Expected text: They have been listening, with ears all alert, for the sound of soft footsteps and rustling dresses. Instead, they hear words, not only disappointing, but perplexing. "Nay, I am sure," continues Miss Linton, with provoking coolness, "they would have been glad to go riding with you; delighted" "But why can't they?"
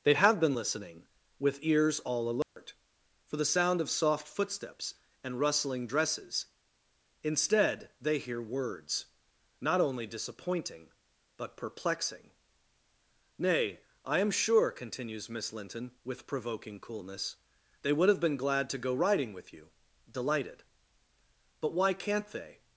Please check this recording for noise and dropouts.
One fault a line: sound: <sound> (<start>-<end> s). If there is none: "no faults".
sound: dropout (2.4-2.6 s)